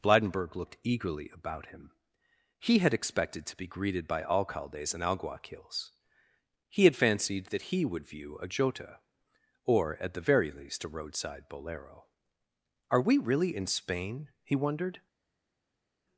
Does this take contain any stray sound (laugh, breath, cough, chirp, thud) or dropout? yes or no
no